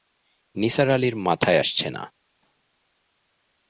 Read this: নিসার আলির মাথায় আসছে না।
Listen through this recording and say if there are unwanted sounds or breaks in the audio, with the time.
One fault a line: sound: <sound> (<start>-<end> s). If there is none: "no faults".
no faults